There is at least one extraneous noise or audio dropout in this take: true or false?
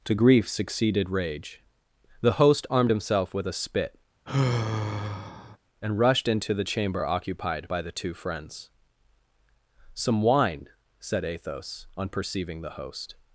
true